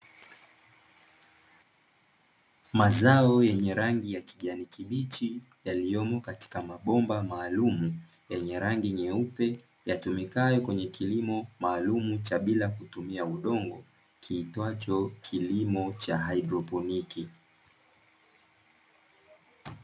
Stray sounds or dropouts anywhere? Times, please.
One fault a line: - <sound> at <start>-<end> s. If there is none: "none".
none